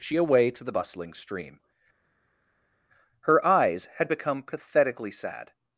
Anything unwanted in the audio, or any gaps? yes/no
no